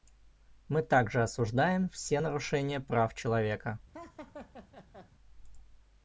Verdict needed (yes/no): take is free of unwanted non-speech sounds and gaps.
no